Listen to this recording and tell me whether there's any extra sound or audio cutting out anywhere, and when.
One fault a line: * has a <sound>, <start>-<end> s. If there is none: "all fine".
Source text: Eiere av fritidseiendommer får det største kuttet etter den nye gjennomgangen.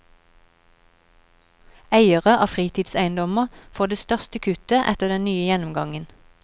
all fine